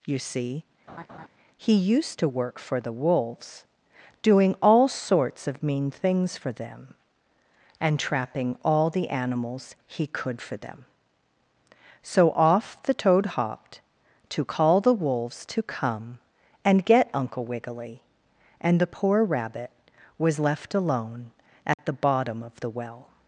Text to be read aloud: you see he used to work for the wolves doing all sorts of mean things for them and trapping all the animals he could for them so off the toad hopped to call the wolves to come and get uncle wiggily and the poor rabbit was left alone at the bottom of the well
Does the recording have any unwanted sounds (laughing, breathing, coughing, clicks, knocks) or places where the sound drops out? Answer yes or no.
yes